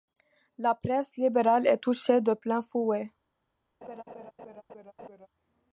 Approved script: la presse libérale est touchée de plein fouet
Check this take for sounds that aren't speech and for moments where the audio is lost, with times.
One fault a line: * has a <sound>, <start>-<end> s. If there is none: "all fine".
* has a laugh, 3.8-5.3 s